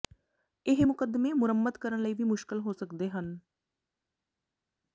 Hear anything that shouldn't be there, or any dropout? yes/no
no